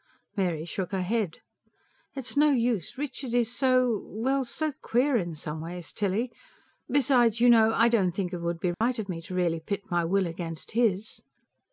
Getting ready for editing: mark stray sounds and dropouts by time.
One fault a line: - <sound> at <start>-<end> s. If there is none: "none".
- dropout at 8.7-8.8 s